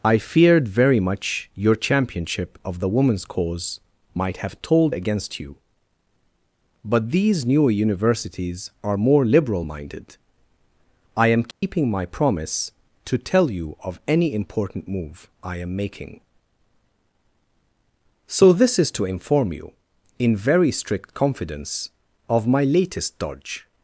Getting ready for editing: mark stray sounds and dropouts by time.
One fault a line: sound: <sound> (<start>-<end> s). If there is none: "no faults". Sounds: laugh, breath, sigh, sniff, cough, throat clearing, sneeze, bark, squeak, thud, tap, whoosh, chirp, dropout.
sound: dropout (11.5-11.6 s)